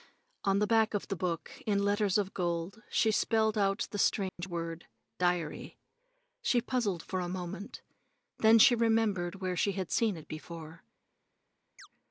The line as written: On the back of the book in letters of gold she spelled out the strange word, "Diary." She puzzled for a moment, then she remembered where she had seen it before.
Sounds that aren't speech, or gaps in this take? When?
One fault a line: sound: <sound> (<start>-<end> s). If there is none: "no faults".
sound: dropout (4.3-4.4 s)
sound: chirp (11.8-11.9 s)